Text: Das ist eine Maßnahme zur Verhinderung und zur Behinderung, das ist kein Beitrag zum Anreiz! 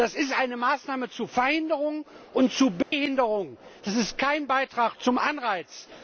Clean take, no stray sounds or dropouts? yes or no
no